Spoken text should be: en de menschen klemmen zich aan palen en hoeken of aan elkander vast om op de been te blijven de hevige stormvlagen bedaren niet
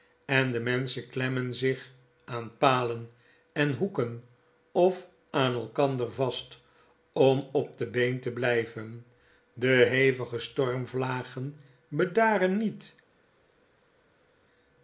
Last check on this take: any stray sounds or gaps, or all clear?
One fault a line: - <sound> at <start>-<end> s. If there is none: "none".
none